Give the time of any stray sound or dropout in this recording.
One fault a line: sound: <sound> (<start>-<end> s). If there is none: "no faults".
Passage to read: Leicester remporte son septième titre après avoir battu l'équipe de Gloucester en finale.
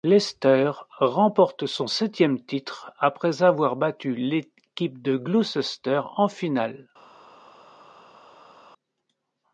no faults